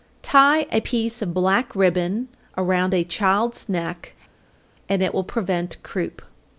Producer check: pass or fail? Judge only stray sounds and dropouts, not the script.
pass